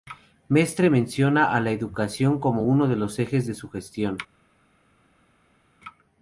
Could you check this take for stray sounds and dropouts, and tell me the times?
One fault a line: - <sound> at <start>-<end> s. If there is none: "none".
none